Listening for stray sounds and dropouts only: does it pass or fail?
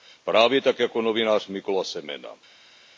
pass